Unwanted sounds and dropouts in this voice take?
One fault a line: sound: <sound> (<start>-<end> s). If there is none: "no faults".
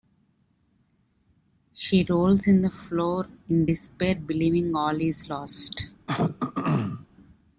sound: throat clearing (6.1-7.1 s)